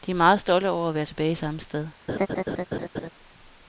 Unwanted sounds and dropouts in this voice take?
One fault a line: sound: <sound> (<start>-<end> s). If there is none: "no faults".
sound: laugh (2.1-3.1 s)